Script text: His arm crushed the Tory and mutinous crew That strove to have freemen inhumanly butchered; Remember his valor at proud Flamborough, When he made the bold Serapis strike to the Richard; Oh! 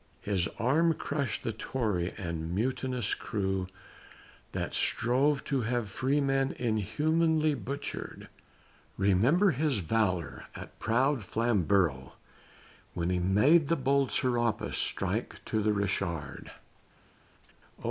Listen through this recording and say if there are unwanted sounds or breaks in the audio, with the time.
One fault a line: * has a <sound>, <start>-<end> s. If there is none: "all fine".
all fine